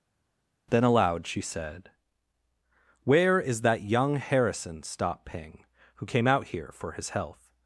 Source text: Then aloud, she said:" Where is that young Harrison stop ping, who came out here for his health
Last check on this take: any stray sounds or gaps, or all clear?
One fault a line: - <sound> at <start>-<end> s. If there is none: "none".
none